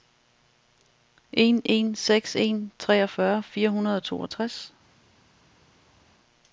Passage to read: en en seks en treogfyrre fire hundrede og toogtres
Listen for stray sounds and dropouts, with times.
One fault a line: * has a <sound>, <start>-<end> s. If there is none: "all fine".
all fine